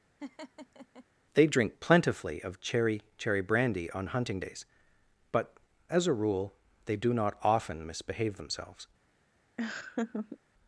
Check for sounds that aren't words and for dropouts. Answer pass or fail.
fail